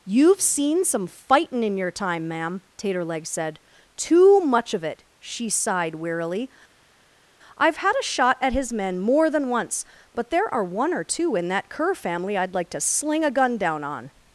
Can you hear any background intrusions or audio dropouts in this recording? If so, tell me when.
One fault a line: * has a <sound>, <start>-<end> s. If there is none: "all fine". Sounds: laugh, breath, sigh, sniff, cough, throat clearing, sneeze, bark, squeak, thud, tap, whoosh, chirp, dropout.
all fine